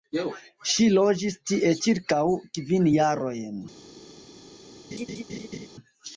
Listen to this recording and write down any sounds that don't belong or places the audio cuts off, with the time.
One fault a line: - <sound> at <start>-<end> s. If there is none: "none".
- laugh at 4.9-5.7 s